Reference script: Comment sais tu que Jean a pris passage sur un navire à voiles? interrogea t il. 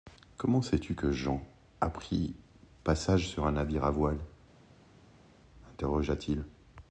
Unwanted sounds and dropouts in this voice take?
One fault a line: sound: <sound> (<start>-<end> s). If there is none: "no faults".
no faults